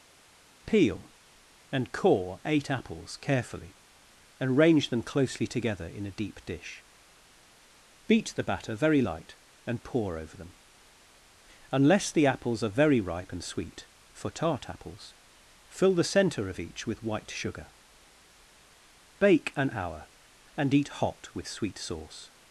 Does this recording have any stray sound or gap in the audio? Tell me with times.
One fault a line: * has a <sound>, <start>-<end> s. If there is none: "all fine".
all fine